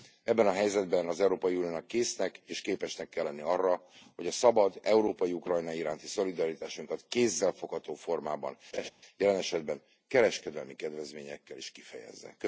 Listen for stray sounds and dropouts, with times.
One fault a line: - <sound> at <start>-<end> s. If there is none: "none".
- laugh at 8.7-8.9 s